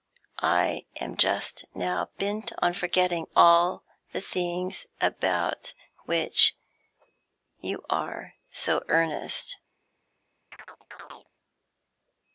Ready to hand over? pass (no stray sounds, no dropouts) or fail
fail